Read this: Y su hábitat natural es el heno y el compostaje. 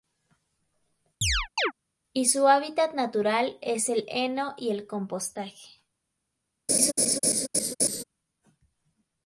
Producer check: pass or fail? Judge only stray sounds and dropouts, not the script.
fail